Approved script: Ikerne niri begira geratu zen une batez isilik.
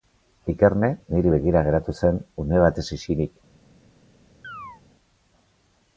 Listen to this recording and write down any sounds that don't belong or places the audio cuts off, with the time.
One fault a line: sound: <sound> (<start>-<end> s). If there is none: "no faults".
sound: chirp (4.4-4.8 s)